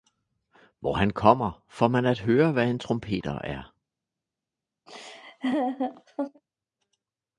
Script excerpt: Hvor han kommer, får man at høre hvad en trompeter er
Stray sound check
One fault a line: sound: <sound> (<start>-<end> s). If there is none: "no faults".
sound: laugh (4.9-6.4 s)